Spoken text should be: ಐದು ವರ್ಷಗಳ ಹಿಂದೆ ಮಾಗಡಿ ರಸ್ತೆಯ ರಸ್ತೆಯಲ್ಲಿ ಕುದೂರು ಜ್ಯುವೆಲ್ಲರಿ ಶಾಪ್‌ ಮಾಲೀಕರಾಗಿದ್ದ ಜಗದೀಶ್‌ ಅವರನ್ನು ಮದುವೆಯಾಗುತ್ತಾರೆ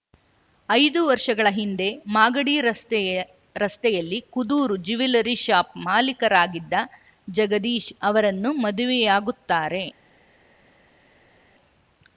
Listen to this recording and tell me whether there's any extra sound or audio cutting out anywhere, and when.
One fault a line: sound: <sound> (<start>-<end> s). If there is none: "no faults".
no faults